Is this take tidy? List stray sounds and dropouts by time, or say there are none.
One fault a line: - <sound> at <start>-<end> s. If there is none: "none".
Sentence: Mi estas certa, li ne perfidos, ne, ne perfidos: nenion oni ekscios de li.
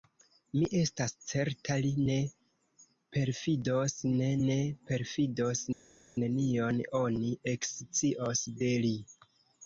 none